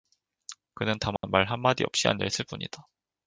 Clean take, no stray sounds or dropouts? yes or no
no